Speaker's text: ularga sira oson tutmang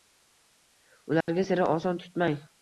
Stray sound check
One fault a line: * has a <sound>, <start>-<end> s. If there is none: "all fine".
* has a dropout, 1.2-1.3 s